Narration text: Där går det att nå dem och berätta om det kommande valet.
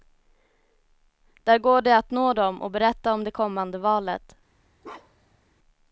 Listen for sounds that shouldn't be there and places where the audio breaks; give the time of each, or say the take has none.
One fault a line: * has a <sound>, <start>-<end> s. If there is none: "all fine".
* has a bark, 4.8-5.4 s